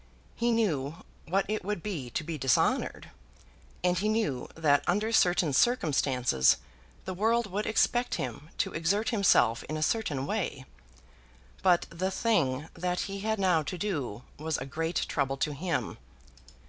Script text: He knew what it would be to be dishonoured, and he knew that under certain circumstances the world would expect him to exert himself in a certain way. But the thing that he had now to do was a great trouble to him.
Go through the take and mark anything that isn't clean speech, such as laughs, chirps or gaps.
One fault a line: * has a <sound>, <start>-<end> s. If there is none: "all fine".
all fine